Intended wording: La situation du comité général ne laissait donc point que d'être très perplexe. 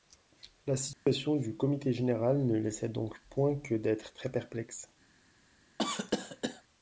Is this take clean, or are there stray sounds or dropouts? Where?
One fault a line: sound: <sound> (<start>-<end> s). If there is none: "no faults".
sound: dropout (0.9-1.1 s)
sound: cough (5.8-6.6 s)